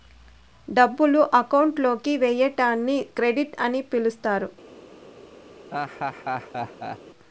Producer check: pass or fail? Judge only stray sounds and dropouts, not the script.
fail